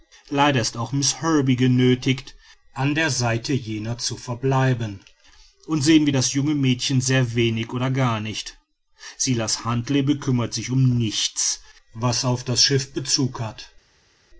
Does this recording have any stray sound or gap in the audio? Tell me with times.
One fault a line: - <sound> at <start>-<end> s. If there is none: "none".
none